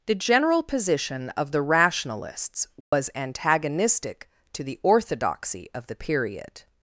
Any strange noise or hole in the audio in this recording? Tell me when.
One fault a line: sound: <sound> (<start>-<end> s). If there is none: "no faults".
sound: dropout (2.8-2.9 s)